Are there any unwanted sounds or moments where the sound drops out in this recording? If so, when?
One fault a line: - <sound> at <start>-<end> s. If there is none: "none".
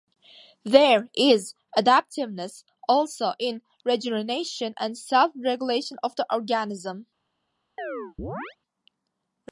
- chirp at 7.8-8.6 s